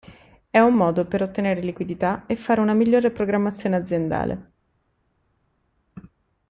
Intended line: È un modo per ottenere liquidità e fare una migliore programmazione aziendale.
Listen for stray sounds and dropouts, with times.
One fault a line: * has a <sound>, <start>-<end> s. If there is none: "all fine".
all fine